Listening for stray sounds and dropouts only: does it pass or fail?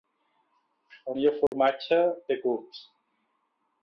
fail